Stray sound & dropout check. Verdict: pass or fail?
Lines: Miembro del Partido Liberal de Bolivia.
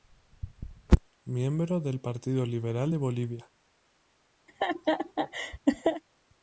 fail